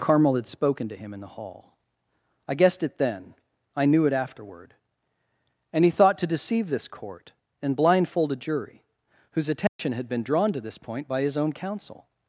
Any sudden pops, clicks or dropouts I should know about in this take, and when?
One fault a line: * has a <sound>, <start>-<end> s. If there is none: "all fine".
* has a dropout, 9.7-9.8 s